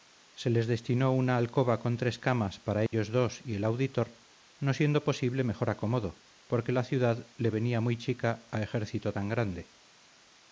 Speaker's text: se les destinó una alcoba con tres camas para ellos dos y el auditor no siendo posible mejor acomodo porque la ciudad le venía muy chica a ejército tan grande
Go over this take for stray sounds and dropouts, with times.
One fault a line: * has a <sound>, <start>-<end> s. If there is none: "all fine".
* has a dropout, 2.9-2.9 s